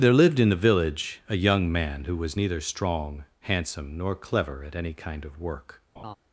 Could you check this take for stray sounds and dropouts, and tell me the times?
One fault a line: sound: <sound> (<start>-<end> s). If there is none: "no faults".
sound: laugh (6.0-6.2 s)